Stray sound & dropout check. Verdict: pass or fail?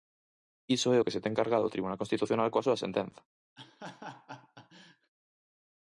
fail